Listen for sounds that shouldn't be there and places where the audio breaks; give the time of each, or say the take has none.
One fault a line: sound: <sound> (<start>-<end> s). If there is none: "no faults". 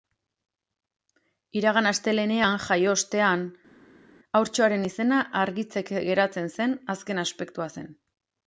no faults